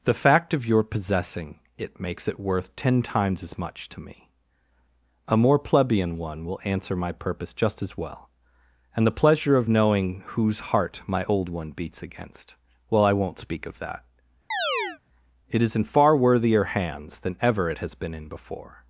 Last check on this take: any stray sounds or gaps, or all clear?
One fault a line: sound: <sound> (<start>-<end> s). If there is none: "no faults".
sound: chirp (14.5-15.0 s)